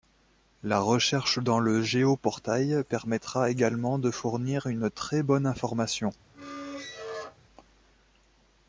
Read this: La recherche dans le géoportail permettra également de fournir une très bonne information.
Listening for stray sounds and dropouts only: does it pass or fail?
fail